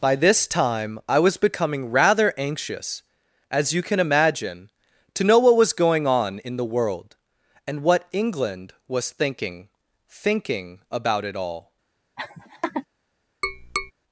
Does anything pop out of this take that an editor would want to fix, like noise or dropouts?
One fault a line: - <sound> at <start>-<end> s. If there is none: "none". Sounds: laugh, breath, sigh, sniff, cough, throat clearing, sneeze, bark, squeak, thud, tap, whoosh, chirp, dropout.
- laugh at 12.2-12.9 s
- tap at 13.4-13.9 s